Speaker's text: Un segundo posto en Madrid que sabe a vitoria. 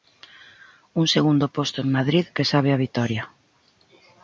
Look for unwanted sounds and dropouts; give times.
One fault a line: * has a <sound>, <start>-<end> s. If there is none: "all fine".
all fine